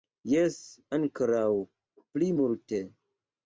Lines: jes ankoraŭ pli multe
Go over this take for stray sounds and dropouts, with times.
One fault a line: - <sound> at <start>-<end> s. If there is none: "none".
none